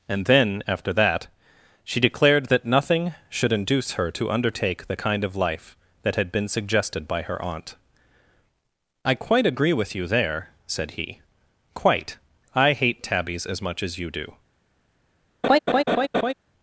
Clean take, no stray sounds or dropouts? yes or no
no